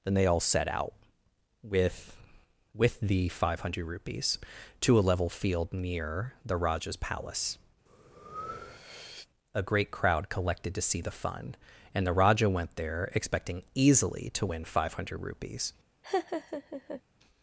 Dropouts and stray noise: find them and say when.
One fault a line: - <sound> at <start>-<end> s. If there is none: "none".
- breath at 7.9-9.3 s
- laugh at 16.0-17.0 s